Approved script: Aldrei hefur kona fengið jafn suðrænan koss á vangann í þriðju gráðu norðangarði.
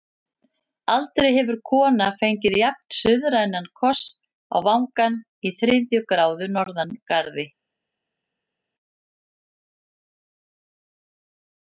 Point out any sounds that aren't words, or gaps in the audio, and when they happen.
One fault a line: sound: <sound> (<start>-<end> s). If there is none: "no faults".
no faults